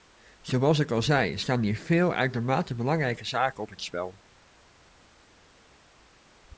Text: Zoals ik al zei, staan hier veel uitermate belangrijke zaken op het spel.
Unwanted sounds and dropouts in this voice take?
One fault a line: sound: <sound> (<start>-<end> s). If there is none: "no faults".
no faults